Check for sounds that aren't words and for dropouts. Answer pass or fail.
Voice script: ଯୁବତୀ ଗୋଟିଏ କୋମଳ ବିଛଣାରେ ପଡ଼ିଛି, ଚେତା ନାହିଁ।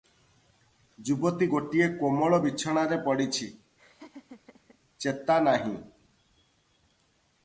fail